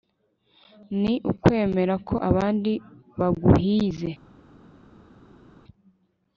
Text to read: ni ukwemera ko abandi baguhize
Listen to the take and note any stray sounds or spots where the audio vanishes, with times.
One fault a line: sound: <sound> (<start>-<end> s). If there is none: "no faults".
no faults